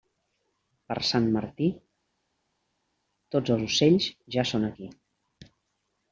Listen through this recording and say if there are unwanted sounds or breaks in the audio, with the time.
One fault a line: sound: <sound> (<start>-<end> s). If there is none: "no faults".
no faults